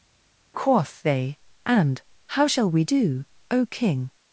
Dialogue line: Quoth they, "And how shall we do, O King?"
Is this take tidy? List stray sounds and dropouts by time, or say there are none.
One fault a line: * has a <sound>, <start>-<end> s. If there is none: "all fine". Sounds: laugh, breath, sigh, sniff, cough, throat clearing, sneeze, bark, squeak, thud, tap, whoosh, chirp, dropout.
all fine